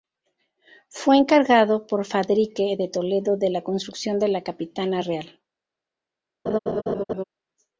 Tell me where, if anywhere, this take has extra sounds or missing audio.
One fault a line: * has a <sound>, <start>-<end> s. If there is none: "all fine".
* has a laugh, 6.5-7.2 s